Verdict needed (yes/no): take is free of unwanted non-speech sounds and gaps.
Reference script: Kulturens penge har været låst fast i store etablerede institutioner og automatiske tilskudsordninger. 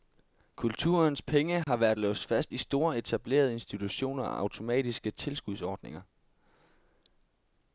no